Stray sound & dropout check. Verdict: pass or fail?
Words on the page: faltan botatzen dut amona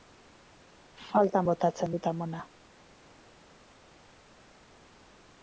pass